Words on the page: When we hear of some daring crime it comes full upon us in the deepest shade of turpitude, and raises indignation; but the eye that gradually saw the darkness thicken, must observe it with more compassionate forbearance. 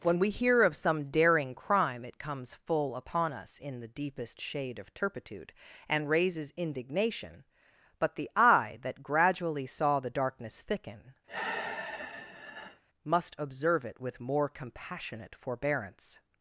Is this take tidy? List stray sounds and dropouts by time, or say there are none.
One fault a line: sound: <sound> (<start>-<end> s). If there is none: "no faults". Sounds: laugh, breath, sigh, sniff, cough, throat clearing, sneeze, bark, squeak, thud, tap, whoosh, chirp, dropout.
sound: sigh (11.3-12.8 s)